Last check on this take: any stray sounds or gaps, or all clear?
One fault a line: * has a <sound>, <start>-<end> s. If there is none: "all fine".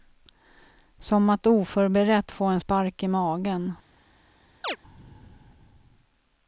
* has a chirp, 4.6-4.8 s